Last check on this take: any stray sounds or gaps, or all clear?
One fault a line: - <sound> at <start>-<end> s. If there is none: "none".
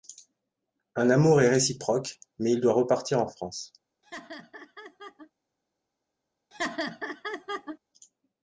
- laugh at 4.0-5.3 s
- laugh at 6.5-7.8 s